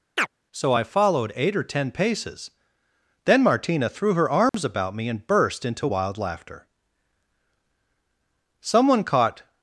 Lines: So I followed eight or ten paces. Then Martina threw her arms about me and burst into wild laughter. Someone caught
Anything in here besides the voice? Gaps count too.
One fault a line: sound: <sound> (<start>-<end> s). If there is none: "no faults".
sound: chirp (0.2-0.3 s)
sound: dropout (4.5-4.5 s)